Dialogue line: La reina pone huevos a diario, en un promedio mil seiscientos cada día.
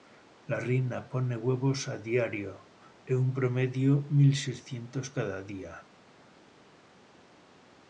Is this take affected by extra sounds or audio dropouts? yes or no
no